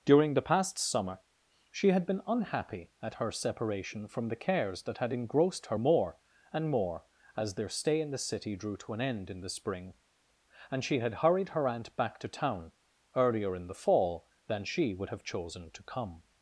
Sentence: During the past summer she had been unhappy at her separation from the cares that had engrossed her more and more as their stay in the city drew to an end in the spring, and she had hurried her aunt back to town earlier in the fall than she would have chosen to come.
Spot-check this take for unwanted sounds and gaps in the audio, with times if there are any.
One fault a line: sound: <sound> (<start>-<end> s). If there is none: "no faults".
no faults